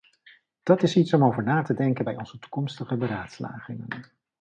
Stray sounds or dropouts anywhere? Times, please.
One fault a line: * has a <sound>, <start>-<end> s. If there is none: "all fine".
all fine